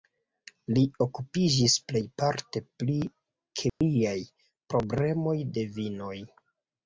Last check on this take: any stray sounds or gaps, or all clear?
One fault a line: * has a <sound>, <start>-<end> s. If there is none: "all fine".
* has a dropout, 3.7-3.8 s